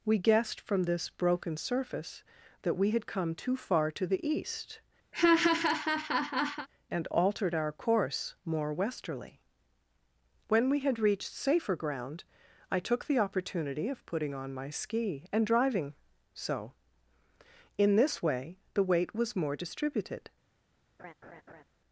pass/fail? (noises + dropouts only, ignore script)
fail